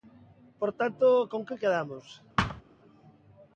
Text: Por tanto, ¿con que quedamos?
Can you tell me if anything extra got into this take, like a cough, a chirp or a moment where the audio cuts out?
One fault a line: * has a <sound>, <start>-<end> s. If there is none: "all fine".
* has a thud, 2.4-2.6 s